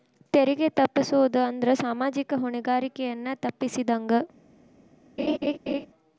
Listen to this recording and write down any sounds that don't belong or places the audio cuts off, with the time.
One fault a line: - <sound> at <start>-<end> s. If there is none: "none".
- laugh at 5.2-5.9 s